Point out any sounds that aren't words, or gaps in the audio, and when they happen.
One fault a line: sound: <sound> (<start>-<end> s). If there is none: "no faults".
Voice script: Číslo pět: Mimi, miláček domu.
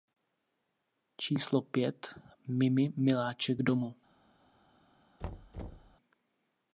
sound: thud (5.2-6.0 s)